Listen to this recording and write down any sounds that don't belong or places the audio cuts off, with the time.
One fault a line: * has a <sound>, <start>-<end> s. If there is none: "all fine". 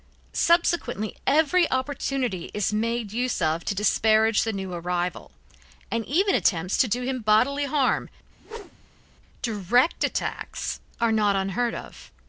* has a whoosh, 8.4-9.1 s